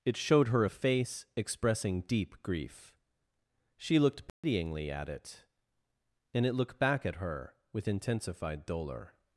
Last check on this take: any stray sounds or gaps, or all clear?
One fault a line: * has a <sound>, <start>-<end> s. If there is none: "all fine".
* has a dropout, 4.3-4.4 s